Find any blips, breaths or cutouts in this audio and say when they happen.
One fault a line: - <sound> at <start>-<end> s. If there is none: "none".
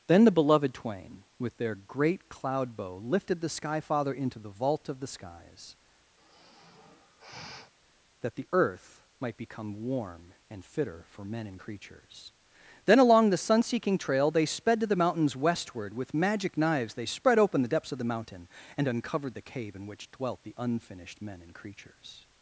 - sigh at 6.2-7.7 s